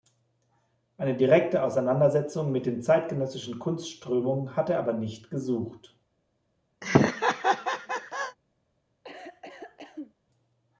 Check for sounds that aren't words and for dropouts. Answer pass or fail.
fail